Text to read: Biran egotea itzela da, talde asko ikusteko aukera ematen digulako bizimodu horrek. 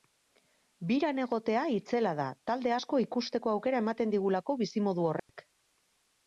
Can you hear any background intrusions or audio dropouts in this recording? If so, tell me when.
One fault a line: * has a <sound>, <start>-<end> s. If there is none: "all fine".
* has a dropout, 5.2-5.3 s